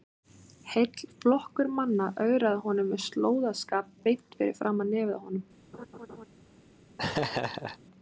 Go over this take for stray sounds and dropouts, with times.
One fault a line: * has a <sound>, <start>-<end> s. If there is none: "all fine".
* has a laugh, 5.7-6.3 s
* has a laugh, 7.0-7.8 s